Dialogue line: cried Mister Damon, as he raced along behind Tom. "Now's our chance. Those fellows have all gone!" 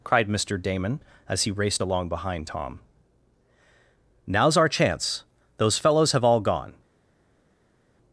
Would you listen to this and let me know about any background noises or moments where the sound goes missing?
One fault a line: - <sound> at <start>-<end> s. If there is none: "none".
none